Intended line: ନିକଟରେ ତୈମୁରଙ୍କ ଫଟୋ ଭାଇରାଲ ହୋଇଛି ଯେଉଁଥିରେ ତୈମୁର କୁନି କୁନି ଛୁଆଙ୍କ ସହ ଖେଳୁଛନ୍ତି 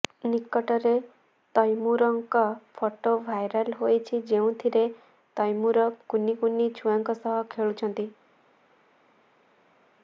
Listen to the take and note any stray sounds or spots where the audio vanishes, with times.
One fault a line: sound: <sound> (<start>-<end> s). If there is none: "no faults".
no faults